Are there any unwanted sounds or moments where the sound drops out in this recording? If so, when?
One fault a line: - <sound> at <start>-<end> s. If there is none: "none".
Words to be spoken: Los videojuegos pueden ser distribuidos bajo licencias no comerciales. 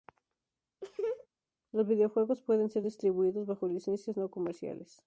- laugh at 0.8-1.3 s